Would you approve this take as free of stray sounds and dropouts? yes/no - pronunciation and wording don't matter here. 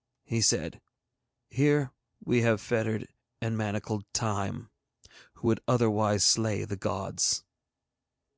yes